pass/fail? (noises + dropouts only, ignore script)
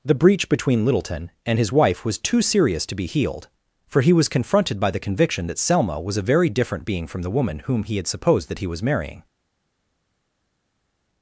pass